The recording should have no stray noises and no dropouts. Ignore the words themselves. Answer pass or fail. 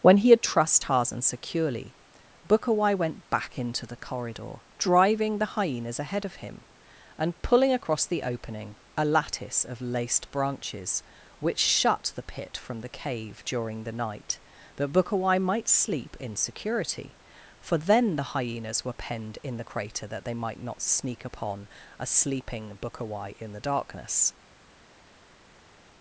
pass